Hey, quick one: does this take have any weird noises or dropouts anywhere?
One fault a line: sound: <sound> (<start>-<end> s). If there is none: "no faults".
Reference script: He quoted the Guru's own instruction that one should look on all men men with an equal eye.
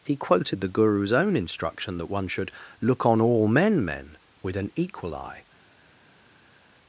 no faults